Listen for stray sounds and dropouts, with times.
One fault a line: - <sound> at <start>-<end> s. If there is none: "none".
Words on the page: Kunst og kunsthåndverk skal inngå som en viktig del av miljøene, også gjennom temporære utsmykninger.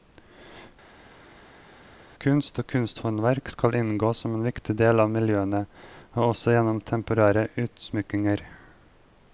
none